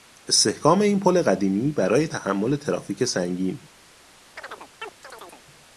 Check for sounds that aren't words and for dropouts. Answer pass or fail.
fail